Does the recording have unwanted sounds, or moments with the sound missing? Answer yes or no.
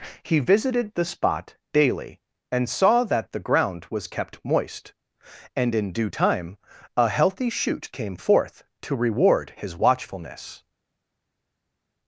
no